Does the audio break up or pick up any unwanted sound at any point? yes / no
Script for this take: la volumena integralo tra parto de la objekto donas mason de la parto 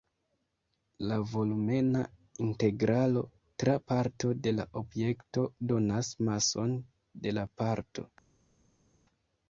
no